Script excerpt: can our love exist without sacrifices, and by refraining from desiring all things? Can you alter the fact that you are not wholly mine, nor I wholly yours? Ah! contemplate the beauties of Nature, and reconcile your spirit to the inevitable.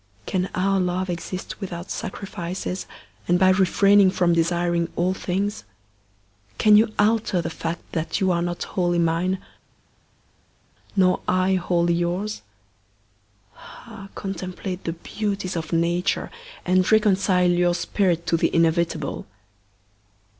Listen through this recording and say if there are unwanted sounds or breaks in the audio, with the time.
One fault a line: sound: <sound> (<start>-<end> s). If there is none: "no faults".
no faults